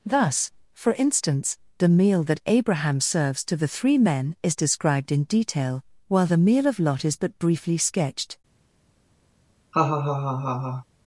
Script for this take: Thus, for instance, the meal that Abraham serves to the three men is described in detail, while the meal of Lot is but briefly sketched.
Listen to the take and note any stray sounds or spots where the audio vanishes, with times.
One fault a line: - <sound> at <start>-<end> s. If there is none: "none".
- laugh at 9.7-10.8 s